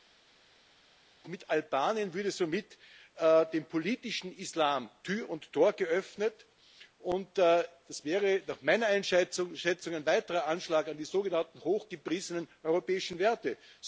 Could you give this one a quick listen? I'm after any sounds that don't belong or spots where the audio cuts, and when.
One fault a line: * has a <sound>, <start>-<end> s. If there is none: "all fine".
all fine